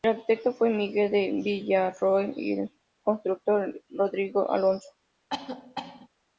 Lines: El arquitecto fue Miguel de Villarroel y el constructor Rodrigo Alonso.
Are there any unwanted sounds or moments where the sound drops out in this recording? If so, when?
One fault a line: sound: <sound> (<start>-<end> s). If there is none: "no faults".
sound: cough (5.3-6.1 s)